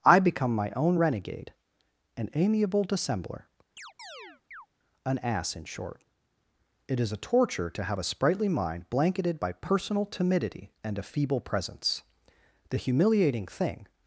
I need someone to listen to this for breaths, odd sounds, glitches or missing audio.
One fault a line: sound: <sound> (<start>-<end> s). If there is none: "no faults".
sound: chirp (3.8-4.7 s)